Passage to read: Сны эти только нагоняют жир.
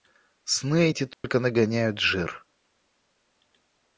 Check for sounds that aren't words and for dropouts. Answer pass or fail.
fail